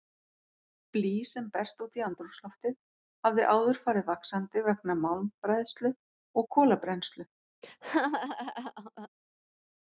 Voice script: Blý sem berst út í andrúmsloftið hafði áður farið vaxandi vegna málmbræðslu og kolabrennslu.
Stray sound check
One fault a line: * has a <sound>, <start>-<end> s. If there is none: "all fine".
* has a laugh, 7.6-9.1 s